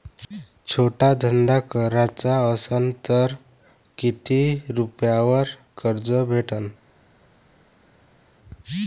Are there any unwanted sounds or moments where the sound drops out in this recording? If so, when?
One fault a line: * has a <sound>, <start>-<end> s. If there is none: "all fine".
all fine